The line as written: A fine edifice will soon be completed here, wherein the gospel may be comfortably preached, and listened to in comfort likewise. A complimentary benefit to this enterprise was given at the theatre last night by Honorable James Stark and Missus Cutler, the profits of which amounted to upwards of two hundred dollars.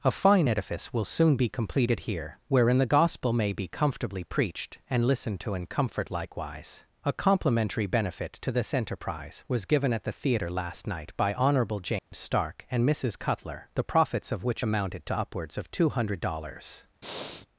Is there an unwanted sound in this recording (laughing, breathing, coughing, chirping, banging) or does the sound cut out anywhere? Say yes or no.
yes